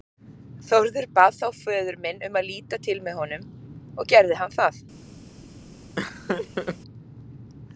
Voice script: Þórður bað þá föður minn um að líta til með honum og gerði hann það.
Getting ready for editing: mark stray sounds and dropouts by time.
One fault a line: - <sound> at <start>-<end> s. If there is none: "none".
- laugh at 6.0-6.8 s